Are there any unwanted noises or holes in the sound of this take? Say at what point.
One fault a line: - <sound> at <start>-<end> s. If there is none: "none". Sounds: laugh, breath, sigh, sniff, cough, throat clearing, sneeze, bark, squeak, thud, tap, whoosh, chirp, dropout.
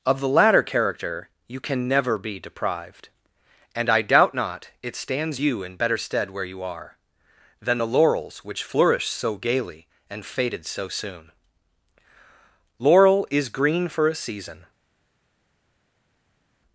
none